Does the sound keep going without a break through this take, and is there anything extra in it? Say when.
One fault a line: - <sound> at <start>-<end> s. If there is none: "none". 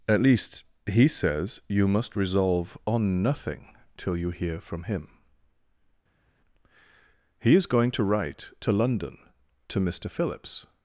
none